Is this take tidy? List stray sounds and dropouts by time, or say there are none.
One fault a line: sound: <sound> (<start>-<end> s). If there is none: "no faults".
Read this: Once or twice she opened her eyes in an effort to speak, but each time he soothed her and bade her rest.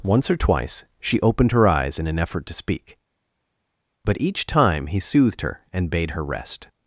no faults